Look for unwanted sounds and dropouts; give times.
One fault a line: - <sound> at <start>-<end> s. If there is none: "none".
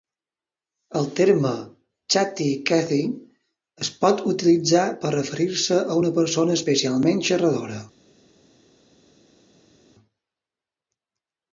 none